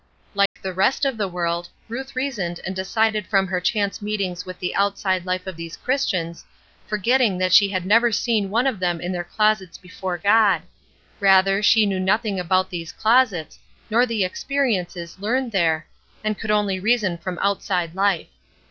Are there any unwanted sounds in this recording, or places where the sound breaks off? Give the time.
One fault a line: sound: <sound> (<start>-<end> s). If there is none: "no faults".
sound: dropout (0.5-0.6 s)